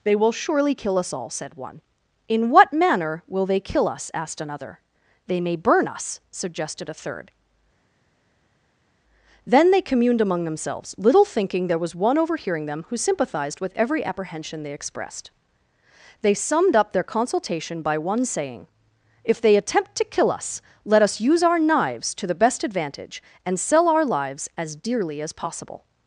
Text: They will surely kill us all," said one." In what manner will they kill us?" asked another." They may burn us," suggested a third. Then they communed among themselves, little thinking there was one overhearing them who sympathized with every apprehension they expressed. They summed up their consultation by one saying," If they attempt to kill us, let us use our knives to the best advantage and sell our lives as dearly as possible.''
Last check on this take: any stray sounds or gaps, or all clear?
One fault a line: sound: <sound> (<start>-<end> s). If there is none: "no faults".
no faults